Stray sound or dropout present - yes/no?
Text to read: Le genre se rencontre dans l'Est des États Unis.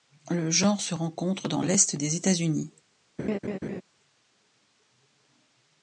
yes